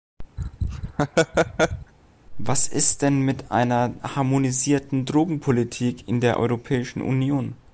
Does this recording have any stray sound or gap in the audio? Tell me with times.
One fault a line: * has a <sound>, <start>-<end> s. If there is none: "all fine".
* has a laugh, 0.4-1.9 s